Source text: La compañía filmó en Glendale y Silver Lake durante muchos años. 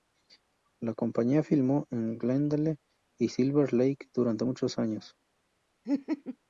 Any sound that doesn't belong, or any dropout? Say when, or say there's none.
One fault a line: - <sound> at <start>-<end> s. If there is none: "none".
- laugh at 5.8-6.4 s